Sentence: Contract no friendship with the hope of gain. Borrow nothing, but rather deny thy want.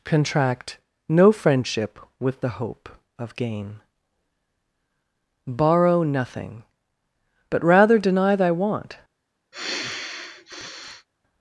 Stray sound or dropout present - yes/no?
yes